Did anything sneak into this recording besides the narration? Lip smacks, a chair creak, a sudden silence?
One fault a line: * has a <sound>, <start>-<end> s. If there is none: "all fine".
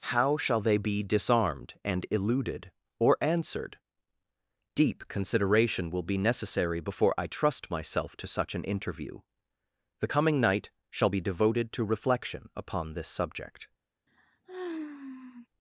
* has a sigh, 14.1-15.5 s